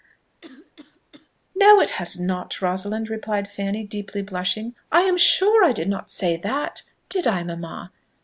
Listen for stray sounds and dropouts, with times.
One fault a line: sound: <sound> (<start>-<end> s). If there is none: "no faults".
sound: cough (0.4-1.3 s)